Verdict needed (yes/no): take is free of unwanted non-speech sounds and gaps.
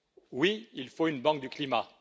yes